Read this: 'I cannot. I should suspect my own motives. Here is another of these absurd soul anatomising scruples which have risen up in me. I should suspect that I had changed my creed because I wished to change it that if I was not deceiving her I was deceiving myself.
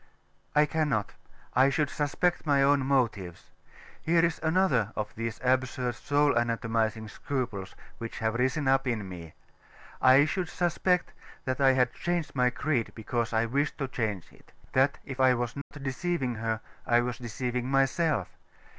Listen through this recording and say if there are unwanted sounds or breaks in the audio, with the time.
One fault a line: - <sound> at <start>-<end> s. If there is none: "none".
- dropout at 15.6-15.7 s